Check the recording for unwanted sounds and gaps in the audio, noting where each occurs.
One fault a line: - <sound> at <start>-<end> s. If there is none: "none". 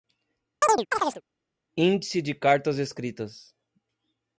- chirp at 0.6-1.2 s